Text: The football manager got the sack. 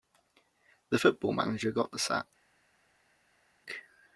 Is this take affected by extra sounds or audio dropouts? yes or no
no